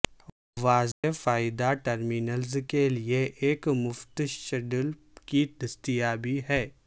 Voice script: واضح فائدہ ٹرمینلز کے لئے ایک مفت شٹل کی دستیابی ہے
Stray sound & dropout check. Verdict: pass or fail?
fail